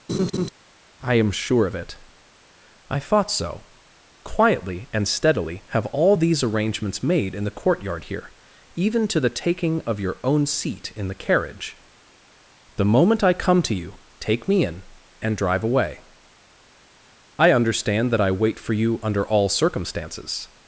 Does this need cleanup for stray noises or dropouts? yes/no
yes